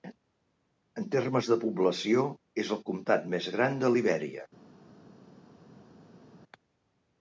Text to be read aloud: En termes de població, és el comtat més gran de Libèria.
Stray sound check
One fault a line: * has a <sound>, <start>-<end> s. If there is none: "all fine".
all fine